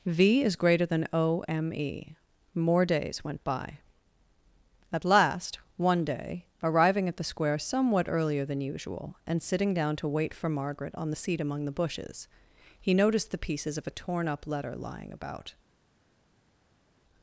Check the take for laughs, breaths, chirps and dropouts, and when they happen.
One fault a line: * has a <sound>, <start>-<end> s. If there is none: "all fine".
all fine